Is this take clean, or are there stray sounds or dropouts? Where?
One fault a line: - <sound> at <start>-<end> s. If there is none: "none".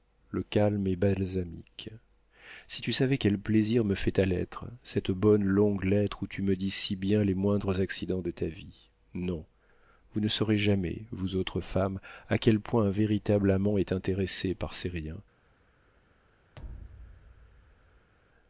- thud at 16.6-18.1 s